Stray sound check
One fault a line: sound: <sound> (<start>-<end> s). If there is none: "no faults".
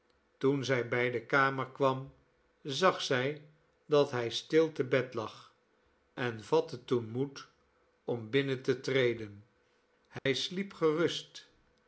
sound: dropout (10.2-10.3 s)